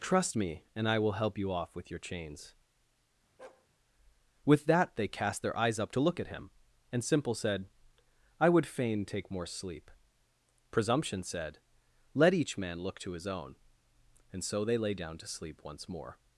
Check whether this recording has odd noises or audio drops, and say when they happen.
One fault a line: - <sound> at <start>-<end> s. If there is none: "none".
- bark at 3.4-3.7 s